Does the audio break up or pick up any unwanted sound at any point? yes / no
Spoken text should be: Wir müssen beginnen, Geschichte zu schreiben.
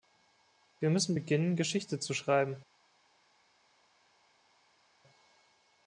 no